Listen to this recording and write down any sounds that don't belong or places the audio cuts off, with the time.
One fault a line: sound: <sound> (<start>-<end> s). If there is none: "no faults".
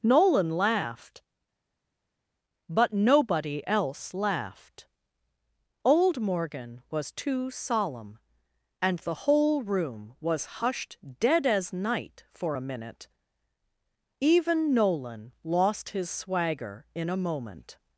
no faults